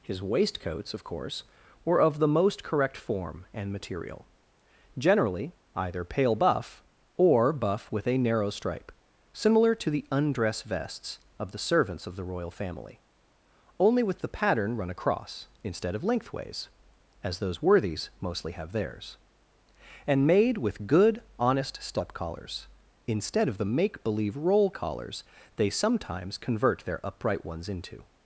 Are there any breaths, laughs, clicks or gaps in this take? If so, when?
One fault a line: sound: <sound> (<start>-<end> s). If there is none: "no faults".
no faults